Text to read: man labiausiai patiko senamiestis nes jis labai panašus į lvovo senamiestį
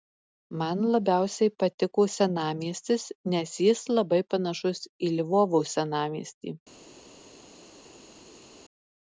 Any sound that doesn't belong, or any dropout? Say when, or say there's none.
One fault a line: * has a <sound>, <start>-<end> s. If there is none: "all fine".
all fine